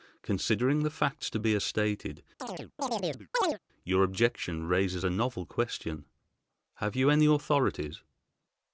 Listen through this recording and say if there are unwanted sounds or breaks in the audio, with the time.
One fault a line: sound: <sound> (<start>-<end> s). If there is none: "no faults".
sound: chirp (2.4-3.6 s)